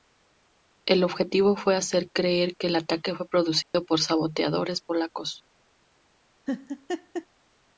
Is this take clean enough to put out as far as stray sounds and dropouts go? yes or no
no